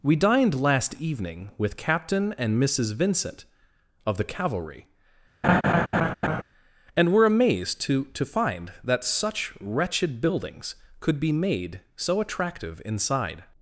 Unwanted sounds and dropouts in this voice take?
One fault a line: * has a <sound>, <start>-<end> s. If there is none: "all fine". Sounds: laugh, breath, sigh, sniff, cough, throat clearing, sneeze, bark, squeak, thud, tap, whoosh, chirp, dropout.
* has a laugh, 5.4-6.4 s